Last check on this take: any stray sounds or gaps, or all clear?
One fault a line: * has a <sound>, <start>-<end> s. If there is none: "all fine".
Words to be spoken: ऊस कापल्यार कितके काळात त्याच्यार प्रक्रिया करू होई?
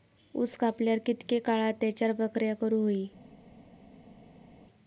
all fine